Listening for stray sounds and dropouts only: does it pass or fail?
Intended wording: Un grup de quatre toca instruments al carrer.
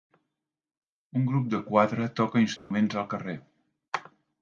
fail